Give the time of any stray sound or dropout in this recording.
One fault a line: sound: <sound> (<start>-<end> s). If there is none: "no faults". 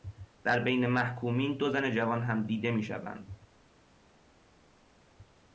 no faults